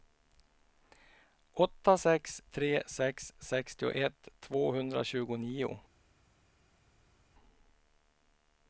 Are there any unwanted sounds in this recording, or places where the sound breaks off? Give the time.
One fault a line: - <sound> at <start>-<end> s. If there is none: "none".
none